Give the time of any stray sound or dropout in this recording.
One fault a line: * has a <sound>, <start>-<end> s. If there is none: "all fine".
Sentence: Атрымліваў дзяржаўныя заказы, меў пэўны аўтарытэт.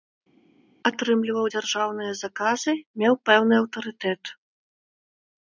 all fine